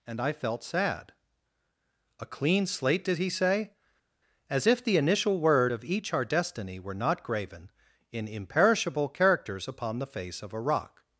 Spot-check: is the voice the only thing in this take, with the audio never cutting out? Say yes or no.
yes